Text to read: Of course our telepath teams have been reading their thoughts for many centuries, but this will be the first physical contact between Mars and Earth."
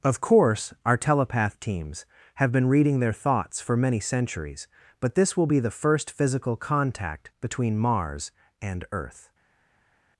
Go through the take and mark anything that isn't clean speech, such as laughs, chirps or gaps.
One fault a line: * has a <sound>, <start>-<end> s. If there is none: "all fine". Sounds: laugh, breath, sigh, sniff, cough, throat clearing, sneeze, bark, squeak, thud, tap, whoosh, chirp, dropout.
all fine